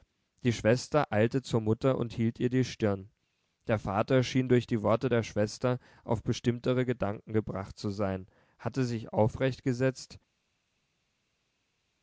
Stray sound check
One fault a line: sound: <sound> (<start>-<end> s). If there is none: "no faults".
no faults